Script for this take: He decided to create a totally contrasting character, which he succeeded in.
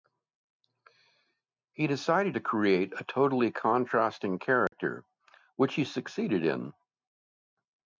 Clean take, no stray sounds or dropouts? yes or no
no